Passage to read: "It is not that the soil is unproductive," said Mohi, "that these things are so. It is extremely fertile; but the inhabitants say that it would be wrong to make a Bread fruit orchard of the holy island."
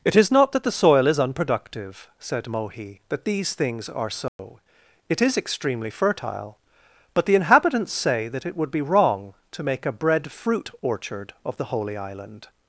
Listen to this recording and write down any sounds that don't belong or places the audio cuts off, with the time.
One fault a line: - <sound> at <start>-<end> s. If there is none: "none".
- dropout at 4.3-4.4 s